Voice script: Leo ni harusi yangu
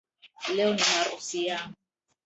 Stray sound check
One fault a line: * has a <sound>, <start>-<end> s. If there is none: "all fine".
all fine